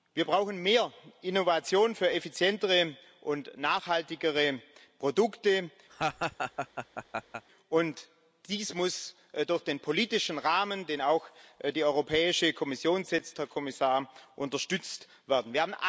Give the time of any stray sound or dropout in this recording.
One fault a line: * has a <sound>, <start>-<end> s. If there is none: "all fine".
* has a laugh, 5.9-7.4 s